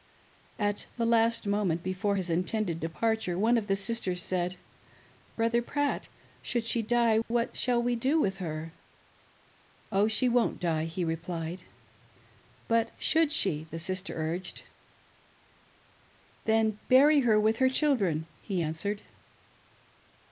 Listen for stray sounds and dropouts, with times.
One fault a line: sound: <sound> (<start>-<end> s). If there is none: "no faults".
no faults